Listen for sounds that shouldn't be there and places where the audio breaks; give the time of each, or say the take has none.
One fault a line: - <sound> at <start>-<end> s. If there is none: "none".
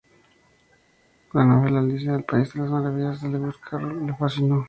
none